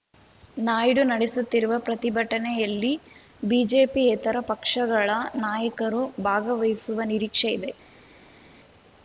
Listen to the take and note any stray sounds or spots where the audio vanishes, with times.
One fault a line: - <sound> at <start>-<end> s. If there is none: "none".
none